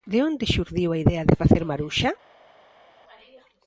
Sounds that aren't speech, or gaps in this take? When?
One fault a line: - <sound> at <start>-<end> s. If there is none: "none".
none